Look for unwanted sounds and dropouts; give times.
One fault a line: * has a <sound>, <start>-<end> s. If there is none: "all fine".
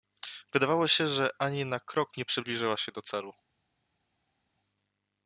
all fine